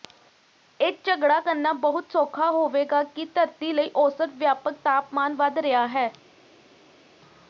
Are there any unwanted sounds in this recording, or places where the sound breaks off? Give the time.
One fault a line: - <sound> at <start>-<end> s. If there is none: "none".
none